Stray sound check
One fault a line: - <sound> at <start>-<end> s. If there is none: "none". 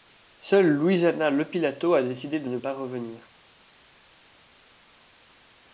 none